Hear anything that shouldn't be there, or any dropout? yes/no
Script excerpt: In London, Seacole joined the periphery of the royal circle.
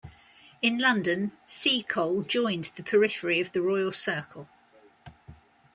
no